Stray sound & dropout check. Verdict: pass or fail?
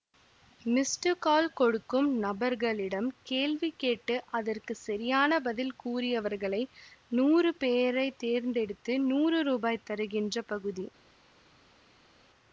pass